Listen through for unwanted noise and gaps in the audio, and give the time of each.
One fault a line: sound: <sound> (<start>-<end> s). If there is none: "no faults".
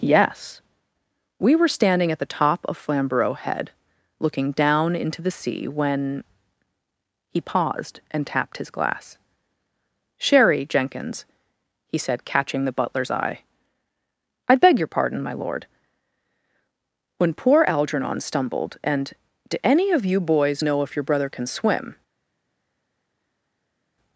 no faults